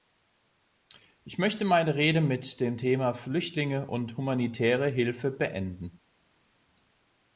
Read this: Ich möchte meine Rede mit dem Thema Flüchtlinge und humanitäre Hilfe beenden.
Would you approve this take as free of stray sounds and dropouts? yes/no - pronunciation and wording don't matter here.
yes